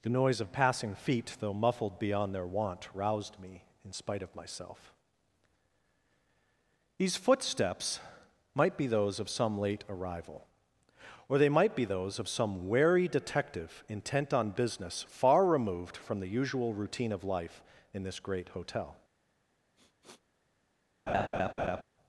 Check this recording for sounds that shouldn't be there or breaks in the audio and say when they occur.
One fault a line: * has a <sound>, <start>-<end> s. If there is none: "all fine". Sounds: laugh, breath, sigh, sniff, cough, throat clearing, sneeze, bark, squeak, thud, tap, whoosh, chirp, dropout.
* has a sniff, 19.8-20.2 s
* has a laugh, 21.1-21.8 s